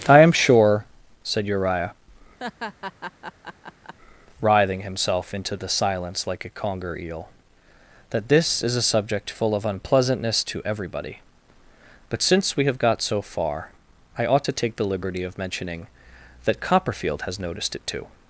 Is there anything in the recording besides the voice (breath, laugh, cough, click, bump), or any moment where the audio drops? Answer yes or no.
yes